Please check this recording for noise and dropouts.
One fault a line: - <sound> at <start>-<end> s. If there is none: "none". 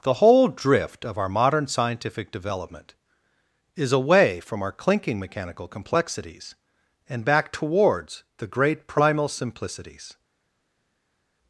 none